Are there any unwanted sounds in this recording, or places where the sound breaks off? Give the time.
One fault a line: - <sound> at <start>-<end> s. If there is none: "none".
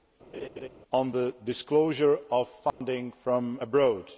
- laugh at 0.3-0.7 s
- dropout at 2.7-2.8 s